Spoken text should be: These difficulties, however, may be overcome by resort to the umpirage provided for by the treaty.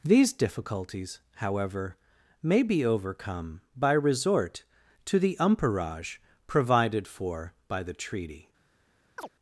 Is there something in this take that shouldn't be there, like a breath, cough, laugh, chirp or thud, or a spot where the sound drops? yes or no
yes